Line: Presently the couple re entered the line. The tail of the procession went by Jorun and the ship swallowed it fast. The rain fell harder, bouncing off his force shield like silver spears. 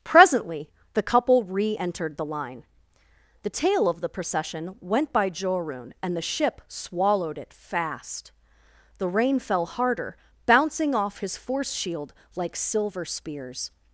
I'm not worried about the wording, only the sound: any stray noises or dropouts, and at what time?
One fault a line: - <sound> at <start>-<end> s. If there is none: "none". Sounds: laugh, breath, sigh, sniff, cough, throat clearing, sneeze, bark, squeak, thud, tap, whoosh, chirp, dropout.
none